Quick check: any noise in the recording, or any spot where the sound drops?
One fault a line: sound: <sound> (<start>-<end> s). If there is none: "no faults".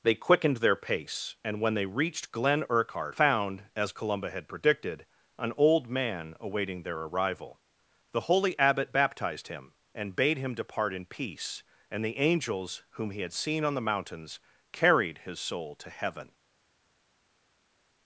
no faults